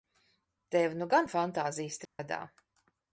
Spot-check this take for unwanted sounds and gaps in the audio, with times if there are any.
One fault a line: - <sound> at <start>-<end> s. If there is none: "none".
- dropout at 2.0-2.2 s